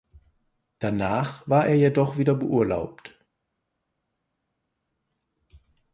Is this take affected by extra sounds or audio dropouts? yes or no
no